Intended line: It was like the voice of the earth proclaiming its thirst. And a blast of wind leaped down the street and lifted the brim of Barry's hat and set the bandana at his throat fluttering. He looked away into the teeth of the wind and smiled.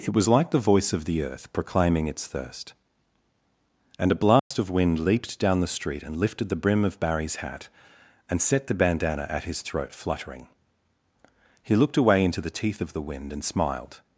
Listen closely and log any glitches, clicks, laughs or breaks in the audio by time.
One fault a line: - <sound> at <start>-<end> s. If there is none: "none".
- dropout at 4.4-4.5 s